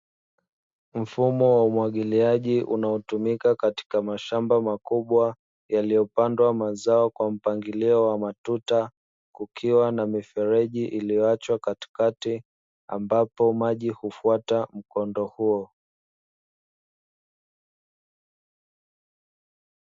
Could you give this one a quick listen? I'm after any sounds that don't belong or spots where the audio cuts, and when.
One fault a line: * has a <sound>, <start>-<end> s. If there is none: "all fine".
all fine